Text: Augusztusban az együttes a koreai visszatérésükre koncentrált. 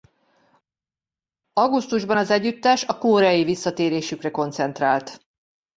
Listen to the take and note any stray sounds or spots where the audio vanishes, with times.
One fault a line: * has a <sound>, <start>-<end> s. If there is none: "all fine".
all fine